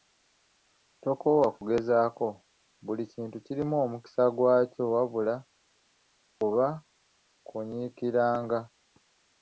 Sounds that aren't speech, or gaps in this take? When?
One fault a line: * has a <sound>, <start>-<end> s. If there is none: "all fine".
all fine